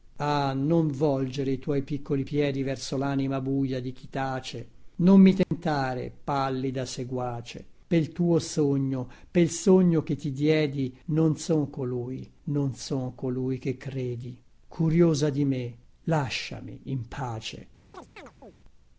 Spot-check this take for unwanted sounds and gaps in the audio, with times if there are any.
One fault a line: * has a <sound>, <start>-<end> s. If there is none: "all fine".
* has a dropout, 5.4-5.5 s
* has a chirp, 17.9-18.5 s